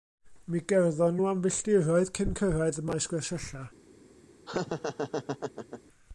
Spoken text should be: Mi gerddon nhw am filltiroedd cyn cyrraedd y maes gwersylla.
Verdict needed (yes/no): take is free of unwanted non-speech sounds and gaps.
no